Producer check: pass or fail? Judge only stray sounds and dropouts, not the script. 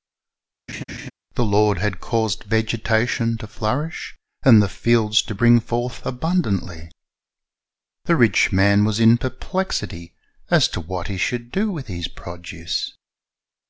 fail